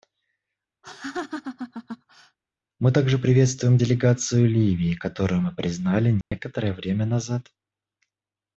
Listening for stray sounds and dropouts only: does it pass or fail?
fail